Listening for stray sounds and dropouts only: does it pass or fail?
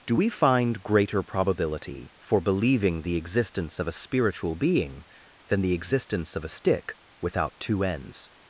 pass